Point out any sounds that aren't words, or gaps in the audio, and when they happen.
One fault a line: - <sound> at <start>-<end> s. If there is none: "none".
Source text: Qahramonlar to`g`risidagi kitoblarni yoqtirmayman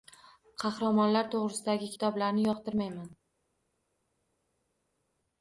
none